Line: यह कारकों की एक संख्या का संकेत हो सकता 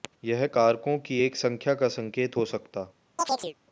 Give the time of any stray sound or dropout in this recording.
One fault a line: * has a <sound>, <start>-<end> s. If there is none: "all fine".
* has a chirp, 3.2-3.5 s